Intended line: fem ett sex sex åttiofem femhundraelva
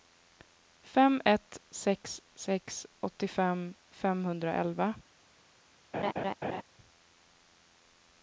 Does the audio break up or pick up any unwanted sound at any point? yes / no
yes